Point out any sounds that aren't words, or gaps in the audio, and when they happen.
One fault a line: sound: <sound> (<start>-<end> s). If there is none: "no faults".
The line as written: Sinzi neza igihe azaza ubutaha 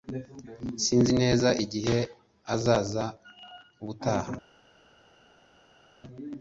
no faults